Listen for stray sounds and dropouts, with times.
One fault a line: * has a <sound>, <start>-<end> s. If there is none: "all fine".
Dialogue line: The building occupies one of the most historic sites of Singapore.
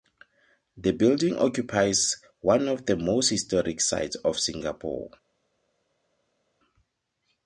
all fine